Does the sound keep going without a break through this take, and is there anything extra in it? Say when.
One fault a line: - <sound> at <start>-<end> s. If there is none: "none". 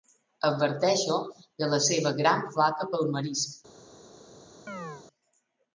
- chirp at 4.7-5.0 s